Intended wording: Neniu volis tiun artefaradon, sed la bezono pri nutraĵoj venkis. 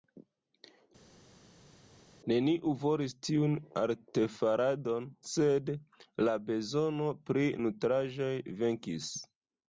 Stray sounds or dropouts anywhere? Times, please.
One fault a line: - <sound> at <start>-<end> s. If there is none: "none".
none